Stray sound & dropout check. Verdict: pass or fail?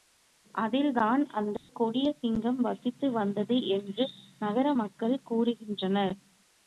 fail